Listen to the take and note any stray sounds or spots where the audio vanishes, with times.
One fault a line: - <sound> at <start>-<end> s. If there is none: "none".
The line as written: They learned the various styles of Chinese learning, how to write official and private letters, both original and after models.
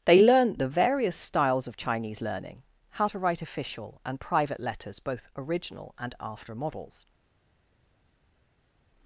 none